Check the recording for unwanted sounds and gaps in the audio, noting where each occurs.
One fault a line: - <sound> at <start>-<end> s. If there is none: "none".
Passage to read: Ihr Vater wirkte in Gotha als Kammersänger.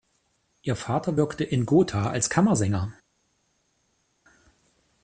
none